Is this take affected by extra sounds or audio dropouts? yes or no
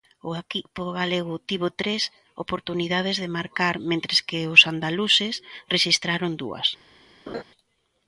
yes